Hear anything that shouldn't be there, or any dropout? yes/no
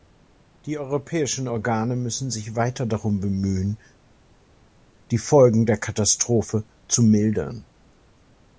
no